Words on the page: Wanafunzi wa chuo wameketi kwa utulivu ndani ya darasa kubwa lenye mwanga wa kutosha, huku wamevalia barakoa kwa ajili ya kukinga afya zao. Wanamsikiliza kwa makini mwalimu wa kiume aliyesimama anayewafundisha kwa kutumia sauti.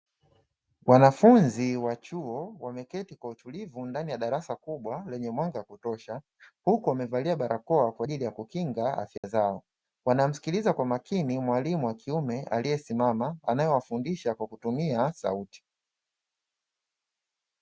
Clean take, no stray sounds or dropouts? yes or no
no